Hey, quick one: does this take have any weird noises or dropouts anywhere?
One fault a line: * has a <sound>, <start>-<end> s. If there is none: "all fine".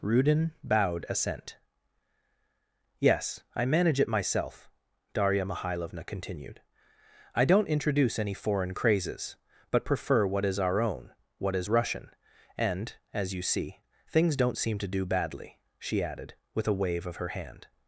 all fine